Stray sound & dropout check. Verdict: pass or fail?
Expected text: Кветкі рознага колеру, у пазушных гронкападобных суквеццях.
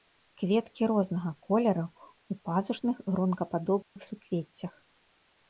fail